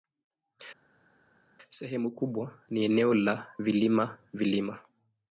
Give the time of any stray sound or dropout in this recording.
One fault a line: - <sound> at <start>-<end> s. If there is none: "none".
none